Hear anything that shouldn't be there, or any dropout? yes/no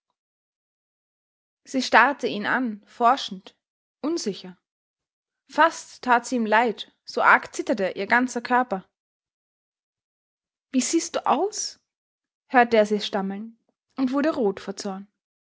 no